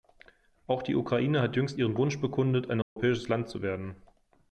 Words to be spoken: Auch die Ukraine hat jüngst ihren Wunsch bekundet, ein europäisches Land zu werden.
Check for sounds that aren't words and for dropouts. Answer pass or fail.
fail